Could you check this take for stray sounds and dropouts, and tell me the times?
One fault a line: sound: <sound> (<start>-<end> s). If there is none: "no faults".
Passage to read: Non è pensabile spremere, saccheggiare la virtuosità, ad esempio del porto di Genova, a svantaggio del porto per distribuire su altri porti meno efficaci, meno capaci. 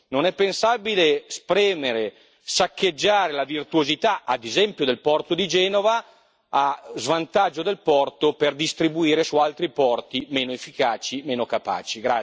no faults